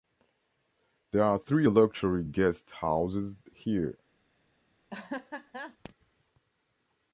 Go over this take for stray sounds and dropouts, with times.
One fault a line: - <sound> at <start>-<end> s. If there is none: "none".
- laugh at 4.9-5.8 s